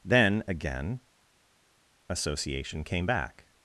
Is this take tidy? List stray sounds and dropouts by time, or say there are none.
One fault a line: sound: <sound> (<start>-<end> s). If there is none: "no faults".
no faults